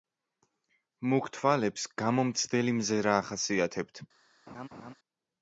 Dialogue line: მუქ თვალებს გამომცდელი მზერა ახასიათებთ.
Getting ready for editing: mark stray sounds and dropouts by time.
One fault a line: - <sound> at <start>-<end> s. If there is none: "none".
- laugh at 4.5-4.9 s